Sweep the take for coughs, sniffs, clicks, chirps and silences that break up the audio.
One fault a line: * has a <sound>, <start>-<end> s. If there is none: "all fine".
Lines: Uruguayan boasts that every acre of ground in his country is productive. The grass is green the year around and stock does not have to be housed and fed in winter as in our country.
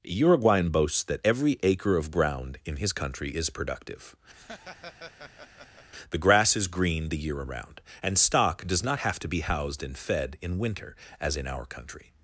* has a laugh, 4.3-5.9 s